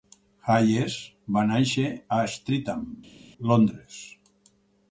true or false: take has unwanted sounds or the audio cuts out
false